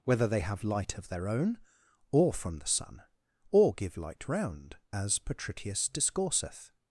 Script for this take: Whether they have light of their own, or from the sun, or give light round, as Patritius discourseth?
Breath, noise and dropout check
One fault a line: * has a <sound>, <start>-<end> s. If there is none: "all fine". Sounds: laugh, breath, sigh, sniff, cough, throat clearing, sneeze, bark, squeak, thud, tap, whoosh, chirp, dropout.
all fine